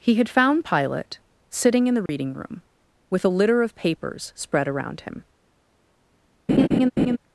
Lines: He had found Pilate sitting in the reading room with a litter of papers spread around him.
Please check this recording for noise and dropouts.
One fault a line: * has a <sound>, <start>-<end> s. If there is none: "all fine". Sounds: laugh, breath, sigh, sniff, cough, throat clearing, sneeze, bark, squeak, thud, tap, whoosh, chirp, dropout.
* has a dropout, 2.1-2.1 s
* has a laugh, 6.5-7.2 s